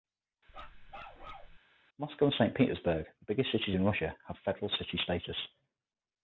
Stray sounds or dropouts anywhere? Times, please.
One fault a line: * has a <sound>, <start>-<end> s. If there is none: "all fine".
* has a bark, 0.5-1.6 s